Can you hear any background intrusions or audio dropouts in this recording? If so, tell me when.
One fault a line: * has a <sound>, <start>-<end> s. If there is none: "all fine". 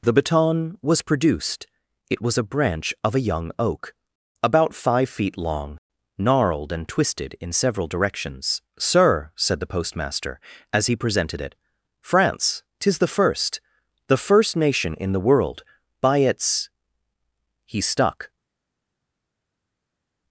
all fine